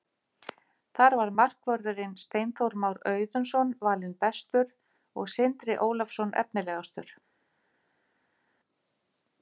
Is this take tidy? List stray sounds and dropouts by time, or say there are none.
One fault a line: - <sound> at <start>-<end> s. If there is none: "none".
none